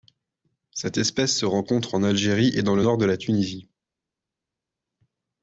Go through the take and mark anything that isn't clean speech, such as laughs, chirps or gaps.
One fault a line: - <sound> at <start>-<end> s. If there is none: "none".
none